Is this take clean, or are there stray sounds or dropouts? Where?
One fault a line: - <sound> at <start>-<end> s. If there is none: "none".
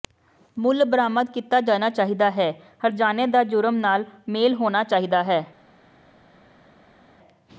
none